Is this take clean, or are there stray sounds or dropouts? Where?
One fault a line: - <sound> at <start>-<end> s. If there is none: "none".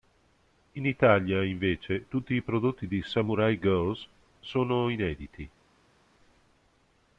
none